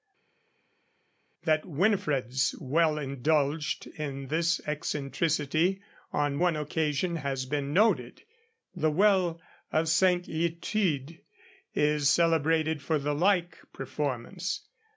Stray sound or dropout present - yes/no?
no